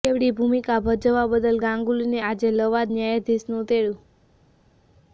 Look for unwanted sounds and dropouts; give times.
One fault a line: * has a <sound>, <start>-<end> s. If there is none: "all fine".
all fine